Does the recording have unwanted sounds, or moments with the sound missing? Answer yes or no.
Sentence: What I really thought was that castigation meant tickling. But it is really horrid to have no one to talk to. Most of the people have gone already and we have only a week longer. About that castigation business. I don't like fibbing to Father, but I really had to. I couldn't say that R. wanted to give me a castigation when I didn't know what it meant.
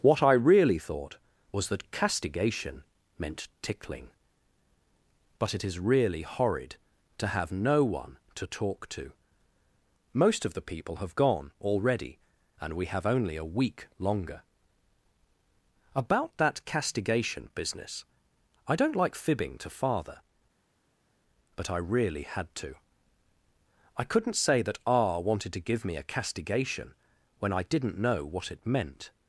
no